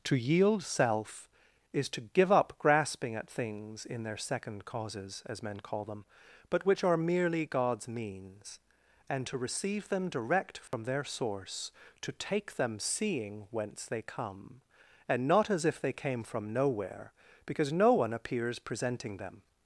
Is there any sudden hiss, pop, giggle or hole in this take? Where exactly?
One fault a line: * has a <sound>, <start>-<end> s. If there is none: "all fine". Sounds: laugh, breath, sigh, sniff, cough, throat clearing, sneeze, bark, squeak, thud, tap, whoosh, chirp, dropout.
* has a dropout, 10.7-10.7 s